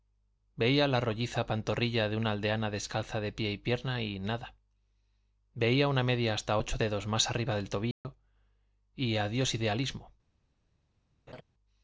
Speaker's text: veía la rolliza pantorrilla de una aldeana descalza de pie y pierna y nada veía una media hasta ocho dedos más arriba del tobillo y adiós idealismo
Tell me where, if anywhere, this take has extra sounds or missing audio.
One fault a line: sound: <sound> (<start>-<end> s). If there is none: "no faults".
sound: dropout (7.9-8.0 s)
sound: laugh (11.3-11.4 s)